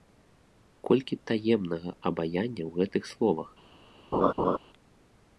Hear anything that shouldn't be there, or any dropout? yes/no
yes